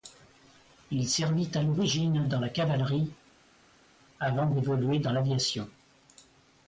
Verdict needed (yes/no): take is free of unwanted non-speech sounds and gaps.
yes